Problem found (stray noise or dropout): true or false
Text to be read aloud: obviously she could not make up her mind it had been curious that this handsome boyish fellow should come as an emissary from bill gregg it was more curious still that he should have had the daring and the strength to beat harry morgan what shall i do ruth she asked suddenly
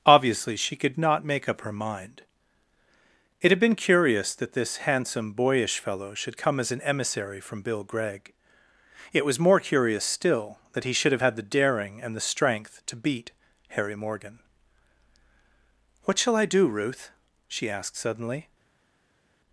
false